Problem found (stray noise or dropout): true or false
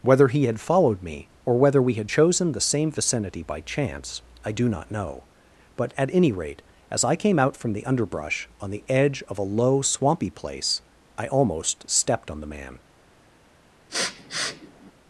true